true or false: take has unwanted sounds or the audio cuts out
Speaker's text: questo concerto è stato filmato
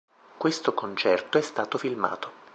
false